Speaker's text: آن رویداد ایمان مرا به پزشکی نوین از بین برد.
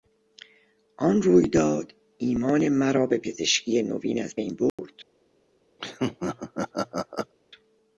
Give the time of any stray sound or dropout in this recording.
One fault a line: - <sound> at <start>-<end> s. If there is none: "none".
- dropout at 4.7-4.8 s
- laugh at 5.8-7.3 s